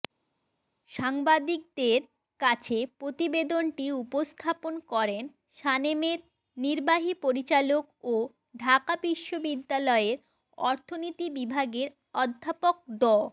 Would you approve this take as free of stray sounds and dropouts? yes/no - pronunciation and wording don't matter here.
yes